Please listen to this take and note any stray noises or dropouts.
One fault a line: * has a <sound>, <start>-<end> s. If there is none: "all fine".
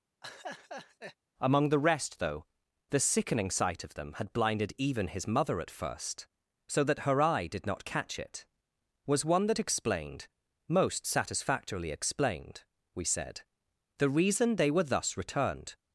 * has a laugh, 0.2-1.2 s